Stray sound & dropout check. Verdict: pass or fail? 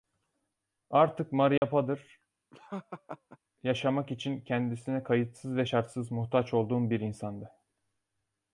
fail